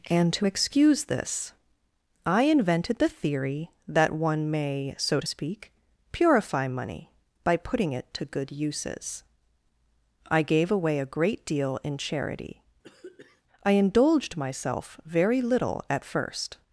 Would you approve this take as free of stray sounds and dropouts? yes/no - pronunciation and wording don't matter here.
no